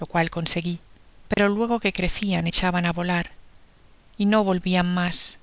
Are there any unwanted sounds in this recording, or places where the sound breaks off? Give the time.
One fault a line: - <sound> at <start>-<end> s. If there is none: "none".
- dropout at 1.3-1.4 s